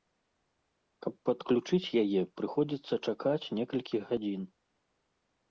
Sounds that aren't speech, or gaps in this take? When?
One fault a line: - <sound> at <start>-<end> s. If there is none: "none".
none